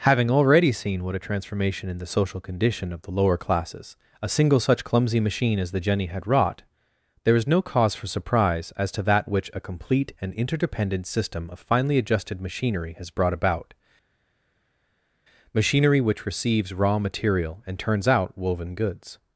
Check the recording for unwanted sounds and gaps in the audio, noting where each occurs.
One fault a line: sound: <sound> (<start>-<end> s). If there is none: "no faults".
no faults